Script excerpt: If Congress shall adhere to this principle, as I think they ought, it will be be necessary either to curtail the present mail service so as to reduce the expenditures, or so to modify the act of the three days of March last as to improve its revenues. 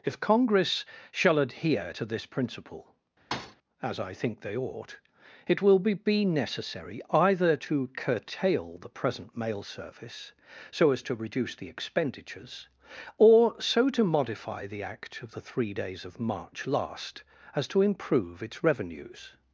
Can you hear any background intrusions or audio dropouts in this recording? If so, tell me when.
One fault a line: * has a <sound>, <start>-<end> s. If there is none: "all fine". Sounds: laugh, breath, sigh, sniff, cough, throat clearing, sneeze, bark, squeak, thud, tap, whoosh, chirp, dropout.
* has a thud, 3.3-3.6 s